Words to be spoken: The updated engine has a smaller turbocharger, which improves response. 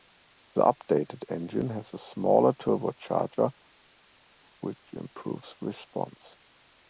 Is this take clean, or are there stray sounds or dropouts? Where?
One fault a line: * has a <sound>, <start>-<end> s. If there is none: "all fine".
all fine